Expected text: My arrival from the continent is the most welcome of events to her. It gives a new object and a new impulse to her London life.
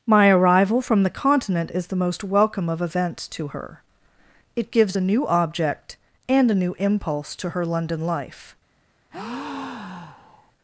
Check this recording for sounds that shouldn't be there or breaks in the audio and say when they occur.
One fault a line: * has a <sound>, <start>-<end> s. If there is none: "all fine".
* has a breath, 9.1-10.5 s